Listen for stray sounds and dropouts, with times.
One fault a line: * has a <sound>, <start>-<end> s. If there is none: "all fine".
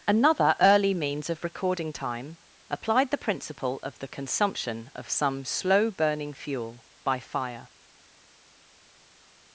all fine